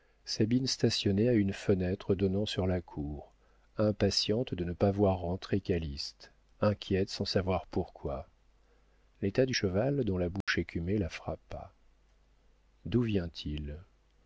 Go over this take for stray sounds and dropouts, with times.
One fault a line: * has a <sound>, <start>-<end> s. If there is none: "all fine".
* has a dropout, 10.4-10.5 s